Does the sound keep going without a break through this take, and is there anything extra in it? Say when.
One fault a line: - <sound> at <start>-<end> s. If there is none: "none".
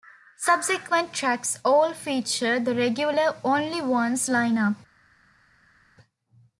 none